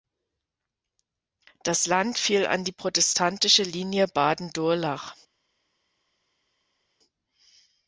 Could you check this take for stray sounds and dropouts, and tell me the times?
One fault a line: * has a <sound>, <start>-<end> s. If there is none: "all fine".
all fine